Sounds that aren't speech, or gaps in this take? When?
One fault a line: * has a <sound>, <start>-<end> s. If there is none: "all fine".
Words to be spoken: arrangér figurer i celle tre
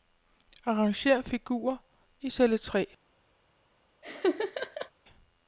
* has a laugh, 4.0-4.9 s